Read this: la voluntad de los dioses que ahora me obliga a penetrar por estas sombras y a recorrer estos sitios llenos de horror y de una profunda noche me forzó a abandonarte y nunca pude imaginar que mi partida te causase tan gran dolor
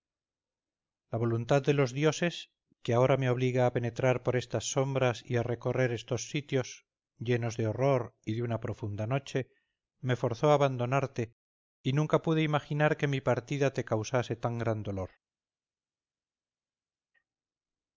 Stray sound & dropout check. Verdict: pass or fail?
pass